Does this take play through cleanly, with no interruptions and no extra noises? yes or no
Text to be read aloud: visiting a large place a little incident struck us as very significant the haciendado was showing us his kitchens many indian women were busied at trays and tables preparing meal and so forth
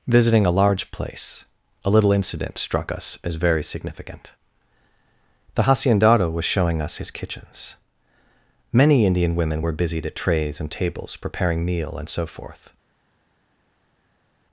yes